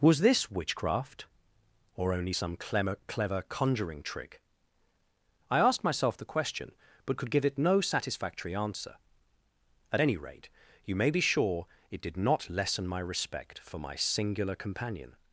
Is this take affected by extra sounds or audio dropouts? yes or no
no